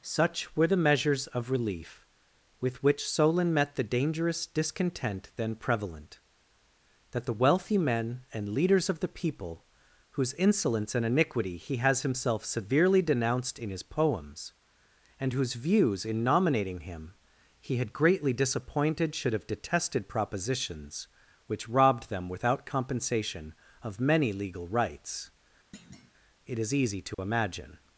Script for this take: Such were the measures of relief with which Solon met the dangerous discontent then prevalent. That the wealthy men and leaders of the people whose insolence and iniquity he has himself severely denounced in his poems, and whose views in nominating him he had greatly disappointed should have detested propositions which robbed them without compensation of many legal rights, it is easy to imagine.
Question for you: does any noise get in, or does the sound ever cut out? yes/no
yes